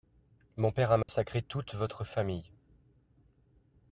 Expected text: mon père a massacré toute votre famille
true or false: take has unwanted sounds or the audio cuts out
true